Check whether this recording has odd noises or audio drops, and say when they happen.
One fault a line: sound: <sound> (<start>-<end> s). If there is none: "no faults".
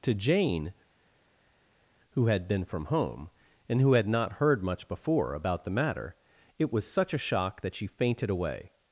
no faults